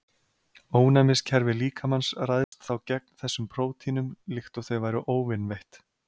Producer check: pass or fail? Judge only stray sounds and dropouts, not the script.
fail